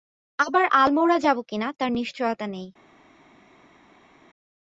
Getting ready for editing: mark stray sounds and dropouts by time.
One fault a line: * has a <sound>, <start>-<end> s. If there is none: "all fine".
all fine